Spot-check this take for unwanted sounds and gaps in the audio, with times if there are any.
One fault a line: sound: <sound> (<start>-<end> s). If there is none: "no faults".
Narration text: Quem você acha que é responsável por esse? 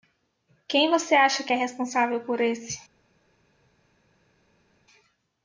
no faults